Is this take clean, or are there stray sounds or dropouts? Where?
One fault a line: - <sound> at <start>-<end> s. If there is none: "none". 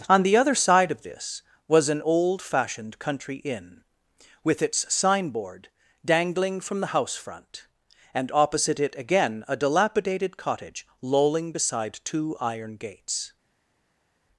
none